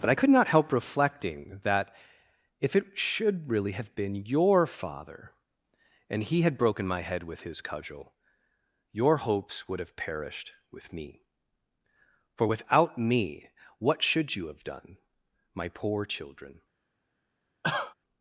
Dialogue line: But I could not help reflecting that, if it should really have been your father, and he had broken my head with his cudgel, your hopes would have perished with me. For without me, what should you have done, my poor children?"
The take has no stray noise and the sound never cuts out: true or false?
false